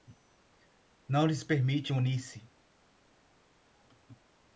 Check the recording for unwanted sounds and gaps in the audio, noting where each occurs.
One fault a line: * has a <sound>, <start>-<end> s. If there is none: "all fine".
all fine